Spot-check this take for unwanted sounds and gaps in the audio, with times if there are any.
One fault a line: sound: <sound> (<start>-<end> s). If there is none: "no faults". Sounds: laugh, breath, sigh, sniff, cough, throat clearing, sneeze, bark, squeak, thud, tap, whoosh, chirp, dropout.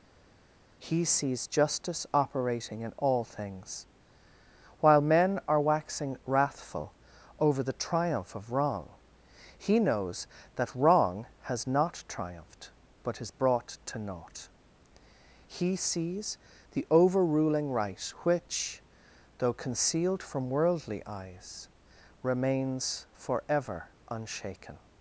no faults